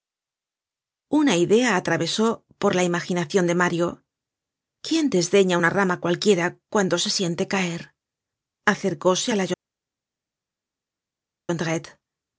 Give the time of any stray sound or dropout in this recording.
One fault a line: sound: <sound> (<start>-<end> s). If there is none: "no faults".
no faults